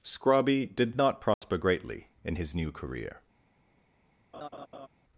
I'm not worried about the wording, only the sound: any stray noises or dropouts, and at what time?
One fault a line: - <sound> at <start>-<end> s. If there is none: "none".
- dropout at 1.3-1.4 s
- laugh at 4.3-4.9 s